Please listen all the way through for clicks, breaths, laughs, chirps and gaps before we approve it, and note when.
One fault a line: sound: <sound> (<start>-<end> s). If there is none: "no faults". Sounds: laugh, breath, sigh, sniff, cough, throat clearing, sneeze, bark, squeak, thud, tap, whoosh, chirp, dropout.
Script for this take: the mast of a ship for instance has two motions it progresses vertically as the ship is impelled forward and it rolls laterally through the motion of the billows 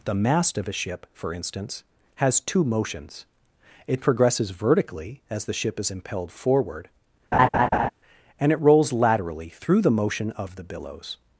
sound: laugh (7.3-7.9 s)